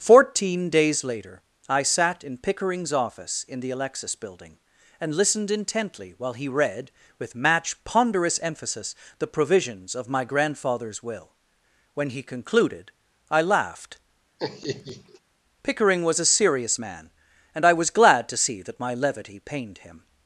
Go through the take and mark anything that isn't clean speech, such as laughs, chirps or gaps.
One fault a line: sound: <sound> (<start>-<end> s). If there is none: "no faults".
sound: laugh (14.4-15.2 s)